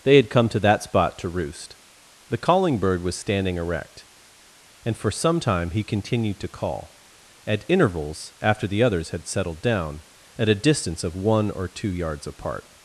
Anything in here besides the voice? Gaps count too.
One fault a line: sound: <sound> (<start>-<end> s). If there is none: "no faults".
no faults